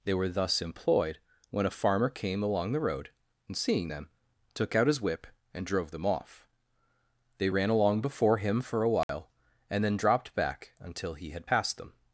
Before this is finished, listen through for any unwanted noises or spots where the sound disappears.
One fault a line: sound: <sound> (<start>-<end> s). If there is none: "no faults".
sound: dropout (9.0-9.1 s)